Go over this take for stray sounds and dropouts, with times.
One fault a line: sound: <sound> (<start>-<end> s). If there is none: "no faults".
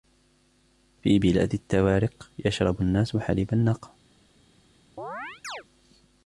sound: chirp (5.0-5.6 s)